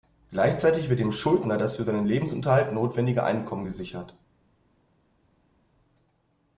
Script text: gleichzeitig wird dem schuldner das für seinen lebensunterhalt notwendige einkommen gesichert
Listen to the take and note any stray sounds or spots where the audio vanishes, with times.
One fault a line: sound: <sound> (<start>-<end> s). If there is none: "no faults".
no faults